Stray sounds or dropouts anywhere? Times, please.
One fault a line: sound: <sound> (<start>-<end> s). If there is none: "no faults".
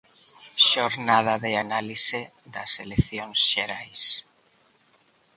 no faults